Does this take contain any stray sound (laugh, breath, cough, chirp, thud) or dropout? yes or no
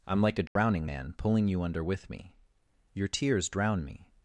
yes